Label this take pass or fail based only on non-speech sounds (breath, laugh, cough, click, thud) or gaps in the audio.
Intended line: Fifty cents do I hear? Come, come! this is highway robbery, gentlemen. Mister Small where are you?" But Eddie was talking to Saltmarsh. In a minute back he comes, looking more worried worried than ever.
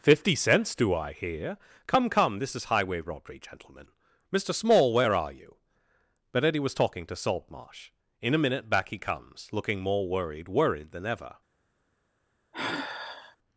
fail